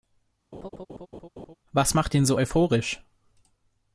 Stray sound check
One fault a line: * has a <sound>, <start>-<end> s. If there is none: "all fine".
* has a laugh, 0.5-1.6 s